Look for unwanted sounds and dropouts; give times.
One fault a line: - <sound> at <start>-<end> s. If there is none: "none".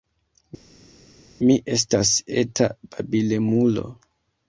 none